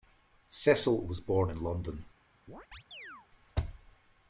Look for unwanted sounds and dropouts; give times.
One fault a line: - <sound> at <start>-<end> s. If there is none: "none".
- chirp at 2.5-3.3 s